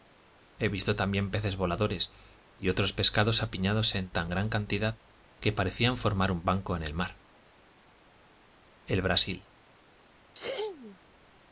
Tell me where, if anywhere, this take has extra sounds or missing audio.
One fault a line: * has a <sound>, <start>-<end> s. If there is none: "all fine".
* has a sneeze, 10.3-11.0 s